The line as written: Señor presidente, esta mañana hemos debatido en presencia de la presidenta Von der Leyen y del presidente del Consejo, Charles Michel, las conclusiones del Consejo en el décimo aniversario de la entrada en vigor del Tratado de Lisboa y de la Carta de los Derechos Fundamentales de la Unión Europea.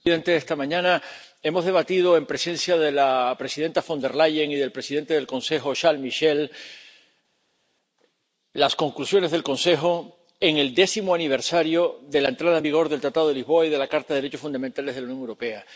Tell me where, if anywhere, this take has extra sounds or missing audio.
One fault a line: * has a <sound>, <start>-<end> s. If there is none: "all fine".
all fine